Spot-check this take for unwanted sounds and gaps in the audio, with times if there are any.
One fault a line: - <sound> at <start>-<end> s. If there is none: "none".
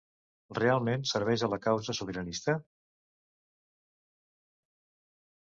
none